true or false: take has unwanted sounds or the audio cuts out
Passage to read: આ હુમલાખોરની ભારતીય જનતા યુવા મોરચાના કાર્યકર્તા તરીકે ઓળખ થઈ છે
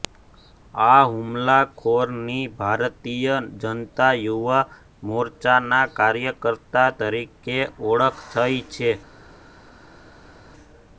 false